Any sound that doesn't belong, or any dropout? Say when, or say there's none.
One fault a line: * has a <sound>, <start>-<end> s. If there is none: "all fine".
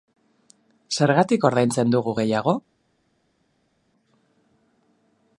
all fine